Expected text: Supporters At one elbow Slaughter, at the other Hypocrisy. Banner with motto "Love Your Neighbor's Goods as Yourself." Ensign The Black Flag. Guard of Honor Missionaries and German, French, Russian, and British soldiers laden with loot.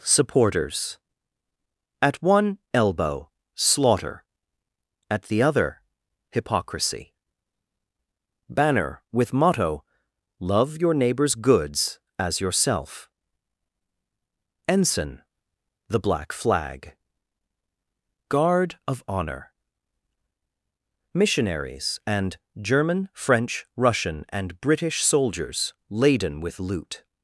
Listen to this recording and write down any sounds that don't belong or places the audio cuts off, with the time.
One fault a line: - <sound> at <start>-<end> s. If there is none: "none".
none